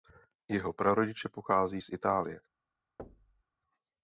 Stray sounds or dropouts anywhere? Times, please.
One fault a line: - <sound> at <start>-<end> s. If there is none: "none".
- thud at 3.0-3.4 s